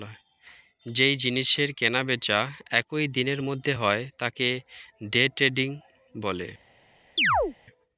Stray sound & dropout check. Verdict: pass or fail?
fail